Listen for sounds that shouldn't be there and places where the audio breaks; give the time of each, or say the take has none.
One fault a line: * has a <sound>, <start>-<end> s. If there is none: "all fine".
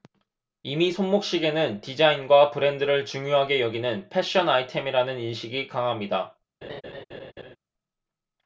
* has a laugh, 6.6-7.6 s